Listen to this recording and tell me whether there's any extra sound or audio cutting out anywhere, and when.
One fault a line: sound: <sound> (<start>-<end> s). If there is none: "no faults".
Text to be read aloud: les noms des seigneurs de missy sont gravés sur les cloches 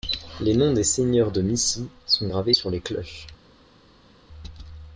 no faults